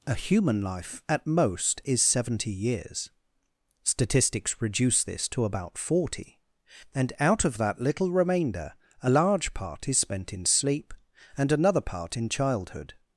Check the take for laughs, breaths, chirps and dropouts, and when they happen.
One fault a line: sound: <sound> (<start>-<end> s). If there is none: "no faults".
no faults